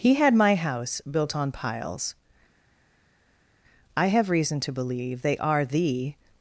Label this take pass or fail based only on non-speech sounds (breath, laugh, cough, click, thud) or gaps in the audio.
pass